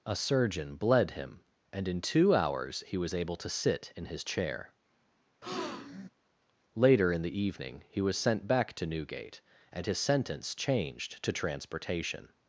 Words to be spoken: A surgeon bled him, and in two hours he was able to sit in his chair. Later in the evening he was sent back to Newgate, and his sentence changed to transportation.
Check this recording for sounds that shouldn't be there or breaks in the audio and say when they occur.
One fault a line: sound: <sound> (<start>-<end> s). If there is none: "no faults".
sound: breath (5.4-6.1 s)